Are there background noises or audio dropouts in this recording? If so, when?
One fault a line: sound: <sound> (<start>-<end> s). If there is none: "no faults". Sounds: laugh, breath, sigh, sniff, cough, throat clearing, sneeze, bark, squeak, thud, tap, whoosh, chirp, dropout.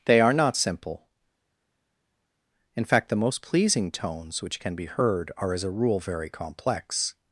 no faults